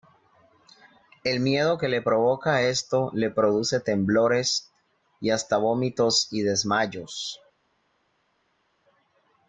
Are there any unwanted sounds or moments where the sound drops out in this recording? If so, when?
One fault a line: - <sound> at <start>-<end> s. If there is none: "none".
none